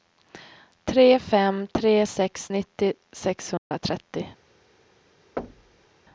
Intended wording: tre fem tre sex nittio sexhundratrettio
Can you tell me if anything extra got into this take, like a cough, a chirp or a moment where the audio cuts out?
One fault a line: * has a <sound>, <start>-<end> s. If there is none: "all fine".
* has a dropout, 3.6-3.7 s
* has a thud, 5.4-5.9 s